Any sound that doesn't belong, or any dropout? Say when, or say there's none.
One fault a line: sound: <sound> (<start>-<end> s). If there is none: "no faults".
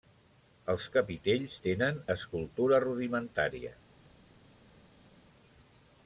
no faults